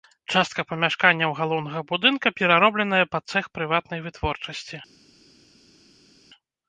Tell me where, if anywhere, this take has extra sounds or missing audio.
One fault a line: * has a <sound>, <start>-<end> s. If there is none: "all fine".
all fine